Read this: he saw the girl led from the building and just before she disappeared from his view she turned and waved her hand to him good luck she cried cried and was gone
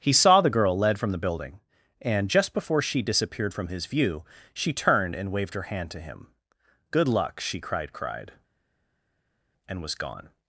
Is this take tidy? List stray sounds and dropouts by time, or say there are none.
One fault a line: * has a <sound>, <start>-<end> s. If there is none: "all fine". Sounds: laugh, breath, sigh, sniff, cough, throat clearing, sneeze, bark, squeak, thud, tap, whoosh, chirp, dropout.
all fine